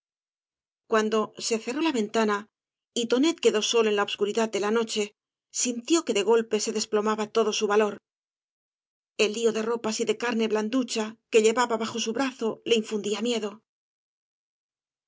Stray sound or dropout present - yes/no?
no